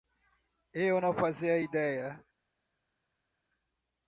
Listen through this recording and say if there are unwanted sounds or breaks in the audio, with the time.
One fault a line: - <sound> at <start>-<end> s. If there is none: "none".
none